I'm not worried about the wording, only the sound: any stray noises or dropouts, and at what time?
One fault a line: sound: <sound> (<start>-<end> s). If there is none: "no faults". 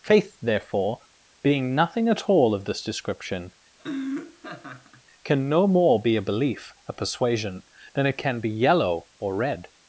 sound: laugh (3.8-5.0 s)